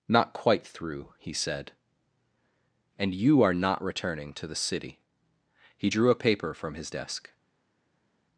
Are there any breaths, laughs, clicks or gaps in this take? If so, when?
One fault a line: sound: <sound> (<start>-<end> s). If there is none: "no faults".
no faults